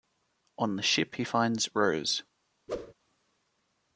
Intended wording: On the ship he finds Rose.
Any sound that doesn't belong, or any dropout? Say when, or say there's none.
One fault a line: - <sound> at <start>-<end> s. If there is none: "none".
- whoosh at 2.7-2.9 s